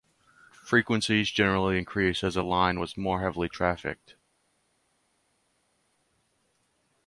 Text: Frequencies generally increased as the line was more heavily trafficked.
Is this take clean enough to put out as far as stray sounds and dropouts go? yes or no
yes